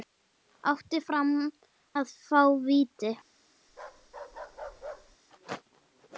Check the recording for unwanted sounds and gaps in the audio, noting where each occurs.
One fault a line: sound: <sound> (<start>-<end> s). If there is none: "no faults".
sound: bark (3.7-5.2 s)